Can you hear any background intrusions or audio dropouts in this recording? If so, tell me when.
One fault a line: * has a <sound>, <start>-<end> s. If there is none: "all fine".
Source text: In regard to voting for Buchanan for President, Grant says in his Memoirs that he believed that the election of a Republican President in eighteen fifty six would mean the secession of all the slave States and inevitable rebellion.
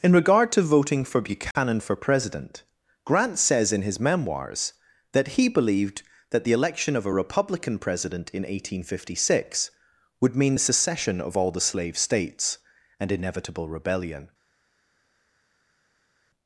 all fine